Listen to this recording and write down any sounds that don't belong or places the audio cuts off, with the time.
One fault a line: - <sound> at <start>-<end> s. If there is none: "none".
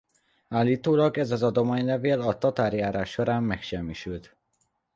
none